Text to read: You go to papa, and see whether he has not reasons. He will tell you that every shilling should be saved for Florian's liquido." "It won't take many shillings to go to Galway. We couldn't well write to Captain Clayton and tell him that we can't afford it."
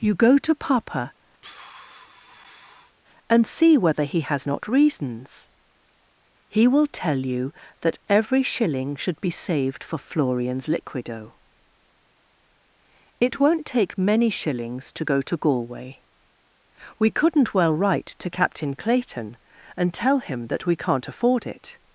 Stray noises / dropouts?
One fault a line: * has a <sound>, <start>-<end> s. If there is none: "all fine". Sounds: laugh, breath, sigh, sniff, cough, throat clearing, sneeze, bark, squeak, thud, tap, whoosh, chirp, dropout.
* has a sigh, 1.4-3.0 s